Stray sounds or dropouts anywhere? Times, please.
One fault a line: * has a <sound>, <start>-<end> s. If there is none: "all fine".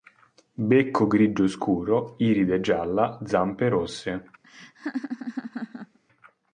* has a laugh, 4.4-6.0 s